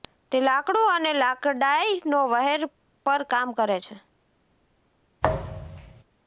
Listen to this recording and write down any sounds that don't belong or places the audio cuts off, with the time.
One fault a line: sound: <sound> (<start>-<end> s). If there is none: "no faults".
sound: thud (5.2-6.0 s)